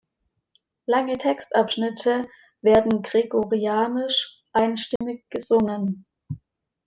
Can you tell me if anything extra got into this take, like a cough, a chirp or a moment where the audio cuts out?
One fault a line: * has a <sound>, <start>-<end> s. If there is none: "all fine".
* has a dropout, 5.0-5.0 s